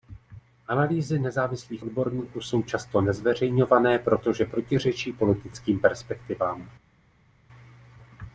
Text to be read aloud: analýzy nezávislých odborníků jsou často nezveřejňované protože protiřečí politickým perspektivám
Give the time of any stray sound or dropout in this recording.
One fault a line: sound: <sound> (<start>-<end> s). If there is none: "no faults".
no faults